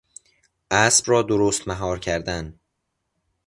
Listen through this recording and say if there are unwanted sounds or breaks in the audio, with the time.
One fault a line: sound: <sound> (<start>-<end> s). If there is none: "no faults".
no faults